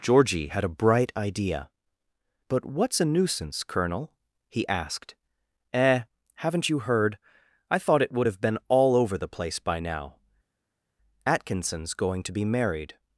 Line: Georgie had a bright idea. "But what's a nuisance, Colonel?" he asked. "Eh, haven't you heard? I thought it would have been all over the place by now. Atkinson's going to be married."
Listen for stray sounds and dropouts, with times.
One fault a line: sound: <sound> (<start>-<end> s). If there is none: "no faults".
no faults